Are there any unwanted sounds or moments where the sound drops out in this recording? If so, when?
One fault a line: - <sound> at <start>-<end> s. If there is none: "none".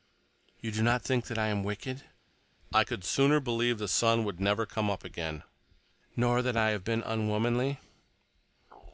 none